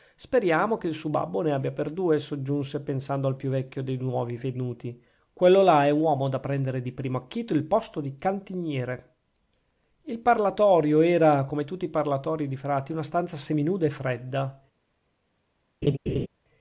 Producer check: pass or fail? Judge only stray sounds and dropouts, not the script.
fail